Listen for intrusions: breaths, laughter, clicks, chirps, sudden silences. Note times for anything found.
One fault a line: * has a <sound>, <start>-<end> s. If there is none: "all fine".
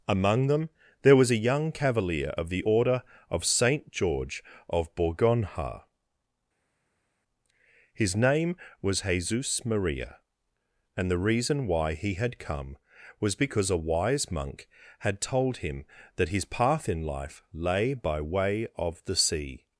all fine